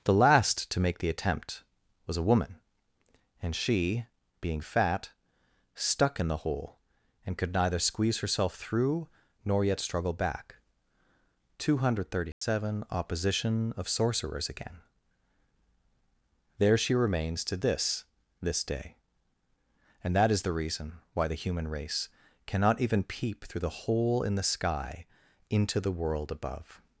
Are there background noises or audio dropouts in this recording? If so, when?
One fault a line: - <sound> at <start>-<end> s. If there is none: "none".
- dropout at 12.3-12.4 s